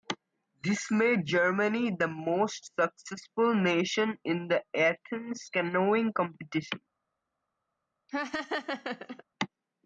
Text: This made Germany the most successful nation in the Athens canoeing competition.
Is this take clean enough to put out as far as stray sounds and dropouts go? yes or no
no